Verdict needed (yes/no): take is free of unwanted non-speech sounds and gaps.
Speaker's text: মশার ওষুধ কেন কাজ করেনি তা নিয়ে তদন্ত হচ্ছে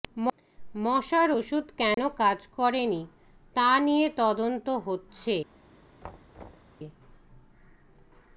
no